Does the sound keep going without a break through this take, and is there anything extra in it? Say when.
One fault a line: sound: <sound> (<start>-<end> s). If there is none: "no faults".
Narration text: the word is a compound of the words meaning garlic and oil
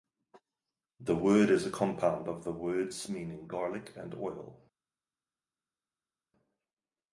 no faults